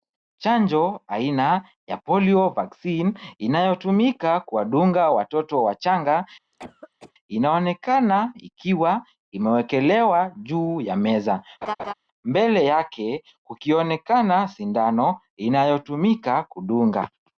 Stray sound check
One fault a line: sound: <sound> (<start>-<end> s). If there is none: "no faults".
sound: cough (6.5-7.1 s)
sound: laugh (11.6-11.9 s)